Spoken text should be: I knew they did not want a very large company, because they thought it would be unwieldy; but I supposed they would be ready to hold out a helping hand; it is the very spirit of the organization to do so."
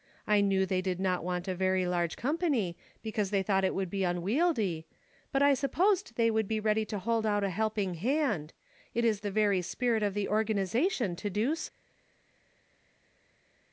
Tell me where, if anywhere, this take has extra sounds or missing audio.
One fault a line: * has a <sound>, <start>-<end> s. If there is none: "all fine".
all fine